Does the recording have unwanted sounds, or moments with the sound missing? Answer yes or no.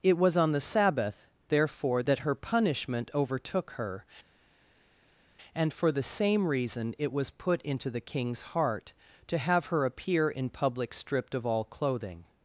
no